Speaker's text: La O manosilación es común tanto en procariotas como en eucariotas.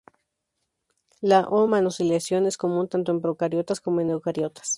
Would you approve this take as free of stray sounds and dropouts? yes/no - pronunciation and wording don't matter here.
yes